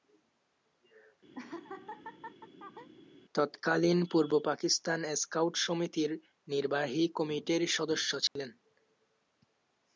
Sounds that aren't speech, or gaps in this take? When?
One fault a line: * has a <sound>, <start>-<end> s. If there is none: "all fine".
* has a laugh, 1.3-2.9 s
* has a dropout, 8.3-8.4 s